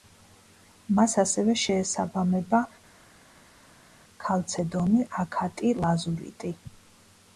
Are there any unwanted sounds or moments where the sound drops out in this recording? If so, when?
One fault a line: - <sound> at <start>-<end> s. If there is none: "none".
none